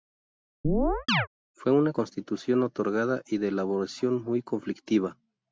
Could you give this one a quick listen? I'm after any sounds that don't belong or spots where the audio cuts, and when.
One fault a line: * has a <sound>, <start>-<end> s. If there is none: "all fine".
* has a chirp, 0.6-1.3 s